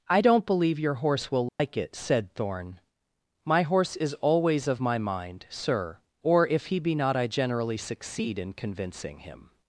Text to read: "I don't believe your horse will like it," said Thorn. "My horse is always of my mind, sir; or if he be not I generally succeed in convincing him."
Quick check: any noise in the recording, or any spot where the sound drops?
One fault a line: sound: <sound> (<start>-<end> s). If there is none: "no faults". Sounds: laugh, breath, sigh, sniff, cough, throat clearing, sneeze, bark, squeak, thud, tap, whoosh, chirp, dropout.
sound: dropout (1.5-1.6 s)